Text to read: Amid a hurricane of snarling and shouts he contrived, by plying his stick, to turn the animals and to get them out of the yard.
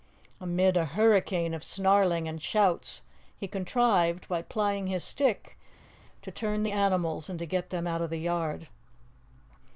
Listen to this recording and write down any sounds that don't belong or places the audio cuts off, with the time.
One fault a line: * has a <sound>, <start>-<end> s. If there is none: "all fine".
all fine